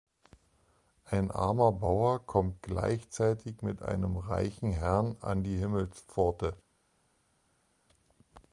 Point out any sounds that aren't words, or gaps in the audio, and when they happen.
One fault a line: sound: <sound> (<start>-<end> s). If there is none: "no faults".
no faults